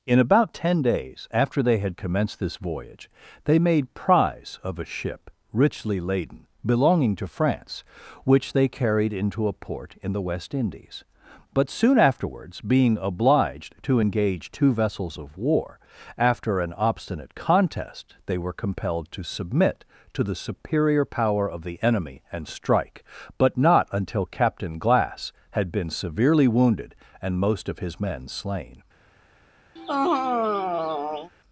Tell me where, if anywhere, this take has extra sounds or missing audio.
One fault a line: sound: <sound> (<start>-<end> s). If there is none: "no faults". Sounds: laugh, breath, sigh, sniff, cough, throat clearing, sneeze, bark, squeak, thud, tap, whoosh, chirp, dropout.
sound: sigh (29.8-31.3 s)